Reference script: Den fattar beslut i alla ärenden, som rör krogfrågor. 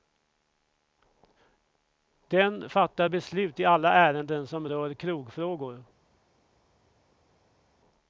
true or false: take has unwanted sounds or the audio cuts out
false